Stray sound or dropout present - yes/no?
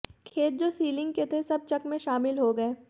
no